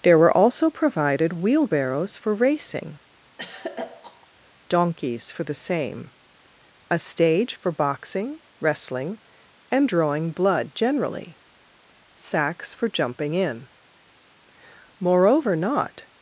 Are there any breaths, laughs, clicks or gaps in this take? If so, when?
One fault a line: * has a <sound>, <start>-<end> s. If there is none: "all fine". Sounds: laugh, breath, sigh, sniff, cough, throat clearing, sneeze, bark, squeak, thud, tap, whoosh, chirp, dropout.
* has a throat clearing, 3.4-4.3 s